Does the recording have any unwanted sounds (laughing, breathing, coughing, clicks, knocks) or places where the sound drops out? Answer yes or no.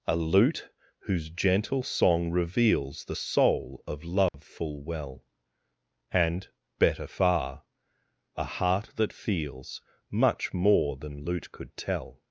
yes